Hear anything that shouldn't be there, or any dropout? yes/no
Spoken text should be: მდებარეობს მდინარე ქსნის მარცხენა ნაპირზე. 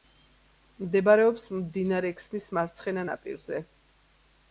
no